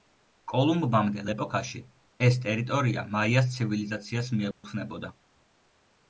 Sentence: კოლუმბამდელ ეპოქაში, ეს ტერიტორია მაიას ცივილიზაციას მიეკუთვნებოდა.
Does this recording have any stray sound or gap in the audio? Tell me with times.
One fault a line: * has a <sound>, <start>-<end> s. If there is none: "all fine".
* has a dropout, 4.5-4.6 s